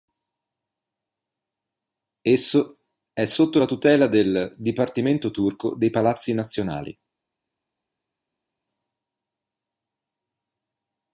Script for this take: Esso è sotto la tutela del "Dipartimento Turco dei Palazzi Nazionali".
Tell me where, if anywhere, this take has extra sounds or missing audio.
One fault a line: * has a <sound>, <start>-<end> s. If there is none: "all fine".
all fine